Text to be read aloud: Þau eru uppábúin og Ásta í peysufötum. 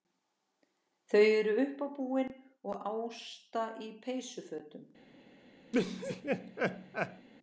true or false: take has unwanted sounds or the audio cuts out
true